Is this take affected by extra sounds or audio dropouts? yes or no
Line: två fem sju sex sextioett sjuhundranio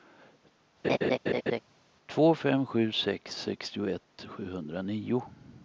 yes